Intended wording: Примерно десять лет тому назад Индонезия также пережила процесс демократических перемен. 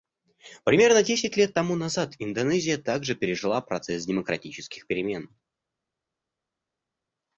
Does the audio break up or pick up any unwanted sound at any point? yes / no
no